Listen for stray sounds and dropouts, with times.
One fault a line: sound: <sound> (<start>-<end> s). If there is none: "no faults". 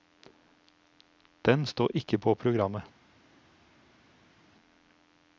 no faults